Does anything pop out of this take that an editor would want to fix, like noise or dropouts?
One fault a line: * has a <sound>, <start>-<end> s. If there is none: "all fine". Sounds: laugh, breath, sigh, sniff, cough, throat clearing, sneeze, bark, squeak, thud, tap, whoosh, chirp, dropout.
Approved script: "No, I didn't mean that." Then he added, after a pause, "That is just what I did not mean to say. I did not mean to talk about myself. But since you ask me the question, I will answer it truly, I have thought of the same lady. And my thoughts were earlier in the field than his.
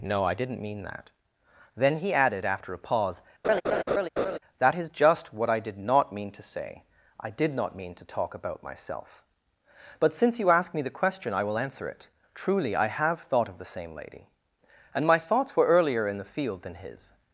* has a laugh, 3.4-4.4 s